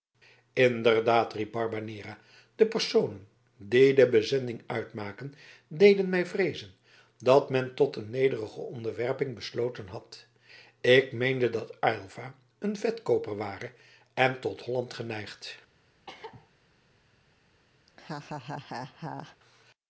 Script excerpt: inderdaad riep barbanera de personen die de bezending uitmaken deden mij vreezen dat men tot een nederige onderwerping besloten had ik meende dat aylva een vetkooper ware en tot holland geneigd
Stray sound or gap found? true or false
true